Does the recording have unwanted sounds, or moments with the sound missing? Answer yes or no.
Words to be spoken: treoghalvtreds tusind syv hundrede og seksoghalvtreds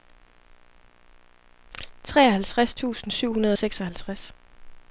no